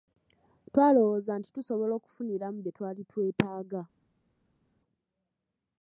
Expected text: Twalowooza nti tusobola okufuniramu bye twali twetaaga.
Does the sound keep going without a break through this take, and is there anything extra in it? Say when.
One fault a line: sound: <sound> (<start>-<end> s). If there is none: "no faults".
no faults